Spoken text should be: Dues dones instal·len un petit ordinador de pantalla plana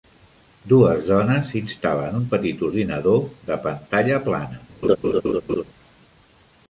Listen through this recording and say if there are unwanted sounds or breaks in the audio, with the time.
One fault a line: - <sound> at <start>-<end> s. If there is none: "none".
- laugh at 4.8-5.6 s